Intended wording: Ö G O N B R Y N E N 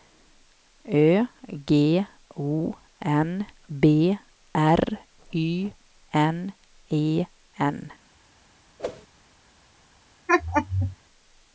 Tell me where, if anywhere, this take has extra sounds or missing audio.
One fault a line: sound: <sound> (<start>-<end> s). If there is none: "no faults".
sound: whoosh (8.8-9.1 s)
sound: laugh (10.3-11.0 s)